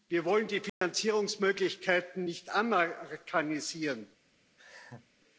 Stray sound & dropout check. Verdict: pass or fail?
fail